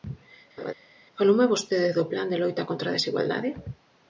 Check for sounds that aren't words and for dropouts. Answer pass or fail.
fail